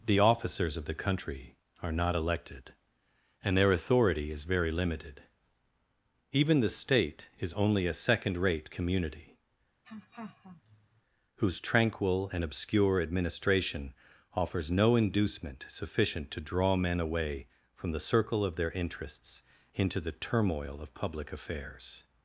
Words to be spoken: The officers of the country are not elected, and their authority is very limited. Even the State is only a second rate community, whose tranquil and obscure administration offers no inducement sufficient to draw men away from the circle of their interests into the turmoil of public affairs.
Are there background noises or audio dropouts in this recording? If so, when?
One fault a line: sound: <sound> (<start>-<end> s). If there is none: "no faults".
sound: laugh (9.8-11.0 s)